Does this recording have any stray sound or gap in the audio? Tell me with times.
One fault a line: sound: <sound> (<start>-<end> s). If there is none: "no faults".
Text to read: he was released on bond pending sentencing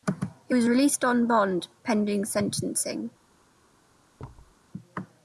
sound: thud (4.2-4.6 s)